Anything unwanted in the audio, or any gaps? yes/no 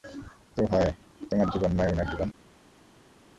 no